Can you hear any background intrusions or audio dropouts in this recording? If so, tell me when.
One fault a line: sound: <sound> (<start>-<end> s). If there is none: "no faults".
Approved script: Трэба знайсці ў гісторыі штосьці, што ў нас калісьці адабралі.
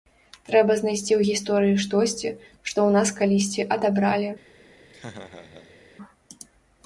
sound: laugh (4.9-5.8 s)